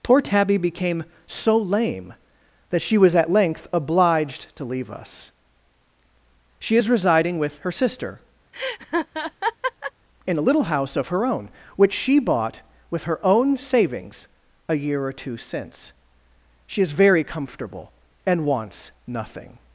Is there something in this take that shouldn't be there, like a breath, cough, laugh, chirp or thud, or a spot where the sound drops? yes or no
yes